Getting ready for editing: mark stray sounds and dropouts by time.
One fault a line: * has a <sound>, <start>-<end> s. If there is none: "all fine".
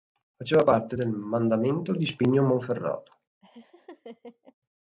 * has a laugh, 3.4-4.5 s